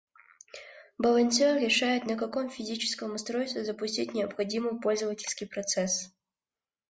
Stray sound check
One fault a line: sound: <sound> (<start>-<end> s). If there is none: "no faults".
no faults